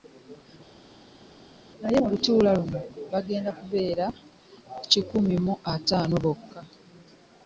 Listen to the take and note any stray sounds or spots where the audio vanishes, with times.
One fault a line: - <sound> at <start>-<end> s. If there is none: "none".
none